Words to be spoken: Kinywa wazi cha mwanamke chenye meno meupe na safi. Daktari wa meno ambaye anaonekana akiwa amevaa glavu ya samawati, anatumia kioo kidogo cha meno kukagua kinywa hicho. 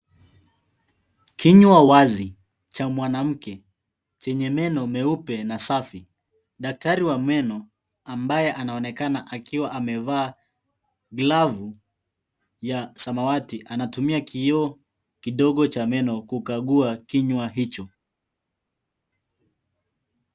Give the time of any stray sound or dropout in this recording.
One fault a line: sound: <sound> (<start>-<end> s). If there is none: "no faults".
no faults